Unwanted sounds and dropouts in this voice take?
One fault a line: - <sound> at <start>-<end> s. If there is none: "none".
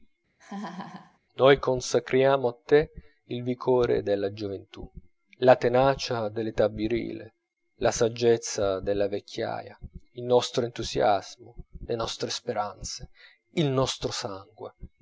- laugh at 0.4-1.2 s